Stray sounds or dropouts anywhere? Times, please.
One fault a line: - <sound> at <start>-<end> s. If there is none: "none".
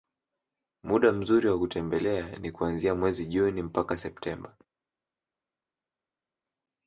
none